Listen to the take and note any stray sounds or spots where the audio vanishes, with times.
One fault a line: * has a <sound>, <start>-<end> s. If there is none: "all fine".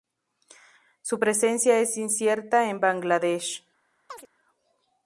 * has a chirp, 4.1-4.3 s